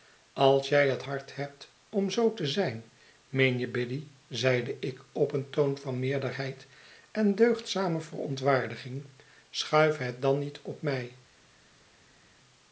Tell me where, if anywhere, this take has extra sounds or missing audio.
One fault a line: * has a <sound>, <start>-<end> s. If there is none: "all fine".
all fine